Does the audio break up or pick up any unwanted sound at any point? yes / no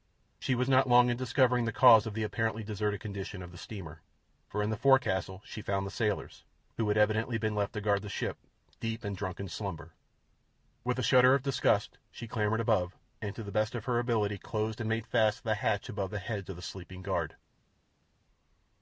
no